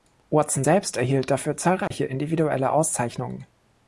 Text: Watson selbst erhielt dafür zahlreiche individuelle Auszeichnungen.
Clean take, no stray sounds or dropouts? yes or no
no